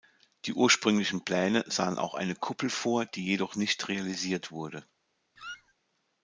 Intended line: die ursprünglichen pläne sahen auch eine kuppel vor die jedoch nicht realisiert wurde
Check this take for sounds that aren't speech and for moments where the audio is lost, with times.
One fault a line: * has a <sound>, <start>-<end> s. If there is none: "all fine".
* has a squeak, 5.4-5.7 s